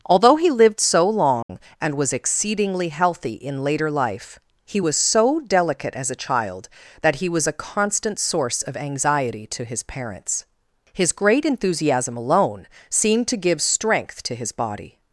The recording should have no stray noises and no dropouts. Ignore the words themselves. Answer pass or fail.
fail